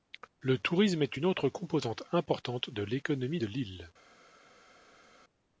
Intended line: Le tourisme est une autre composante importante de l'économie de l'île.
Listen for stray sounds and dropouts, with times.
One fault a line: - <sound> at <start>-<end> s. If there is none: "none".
none